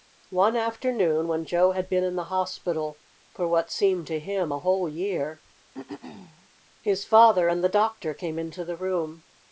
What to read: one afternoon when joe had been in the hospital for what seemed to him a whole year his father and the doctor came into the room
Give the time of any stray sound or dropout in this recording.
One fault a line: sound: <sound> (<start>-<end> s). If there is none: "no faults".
sound: throat clearing (5.7-6.5 s)